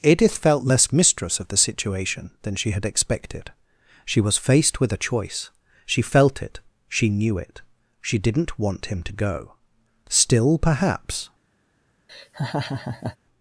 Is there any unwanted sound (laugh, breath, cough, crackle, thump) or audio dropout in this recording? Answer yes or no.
yes